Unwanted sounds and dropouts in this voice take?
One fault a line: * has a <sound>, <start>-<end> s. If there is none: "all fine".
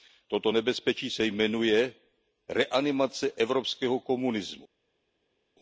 all fine